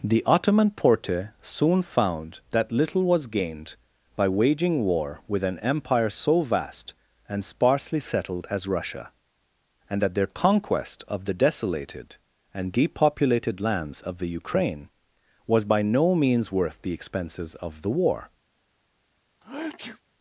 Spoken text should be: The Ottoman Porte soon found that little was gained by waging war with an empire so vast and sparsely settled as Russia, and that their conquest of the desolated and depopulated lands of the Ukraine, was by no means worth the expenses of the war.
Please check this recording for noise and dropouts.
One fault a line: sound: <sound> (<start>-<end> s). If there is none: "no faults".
sound: sneeze (19.4-20.0 s)